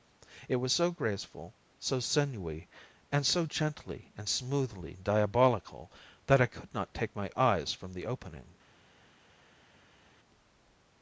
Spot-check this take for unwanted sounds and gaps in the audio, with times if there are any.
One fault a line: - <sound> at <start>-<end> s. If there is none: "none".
none